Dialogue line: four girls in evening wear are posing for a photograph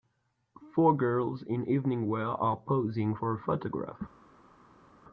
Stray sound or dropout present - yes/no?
no